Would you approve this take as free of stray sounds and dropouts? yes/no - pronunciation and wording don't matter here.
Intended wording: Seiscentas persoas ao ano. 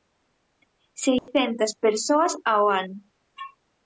no